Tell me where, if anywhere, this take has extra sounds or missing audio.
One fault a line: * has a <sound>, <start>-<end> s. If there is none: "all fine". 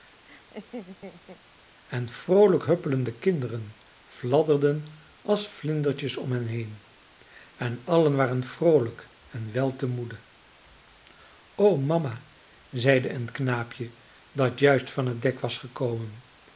* has a laugh, 0.3-1.4 s